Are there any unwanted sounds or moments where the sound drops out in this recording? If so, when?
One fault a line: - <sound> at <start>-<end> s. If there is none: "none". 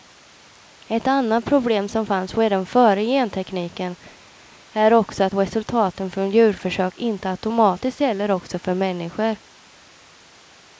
none